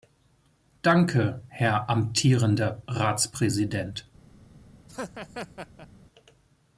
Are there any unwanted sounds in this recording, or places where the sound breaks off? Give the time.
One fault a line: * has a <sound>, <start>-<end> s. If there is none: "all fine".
* has a laugh, 4.9-5.9 s